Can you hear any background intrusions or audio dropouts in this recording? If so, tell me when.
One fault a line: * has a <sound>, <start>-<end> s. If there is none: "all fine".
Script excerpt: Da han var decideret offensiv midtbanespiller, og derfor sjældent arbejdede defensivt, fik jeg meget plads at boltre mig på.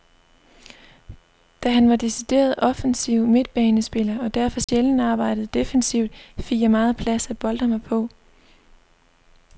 * has a dropout, 4.6-4.7 s